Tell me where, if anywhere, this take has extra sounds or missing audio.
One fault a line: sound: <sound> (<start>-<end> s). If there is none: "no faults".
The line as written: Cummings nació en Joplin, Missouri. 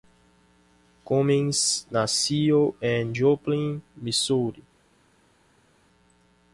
no faults